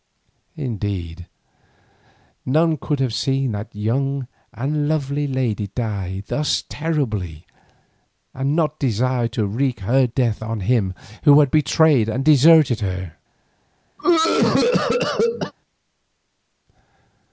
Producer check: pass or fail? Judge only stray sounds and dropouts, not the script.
fail